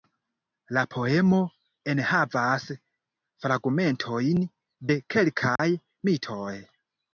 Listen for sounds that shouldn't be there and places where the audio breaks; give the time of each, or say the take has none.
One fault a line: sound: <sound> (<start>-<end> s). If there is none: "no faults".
sound: dropout (5.6-5.6 s)